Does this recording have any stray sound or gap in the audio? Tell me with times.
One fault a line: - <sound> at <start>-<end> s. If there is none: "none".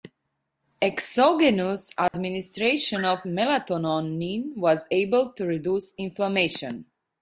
- dropout at 2.1-2.1 s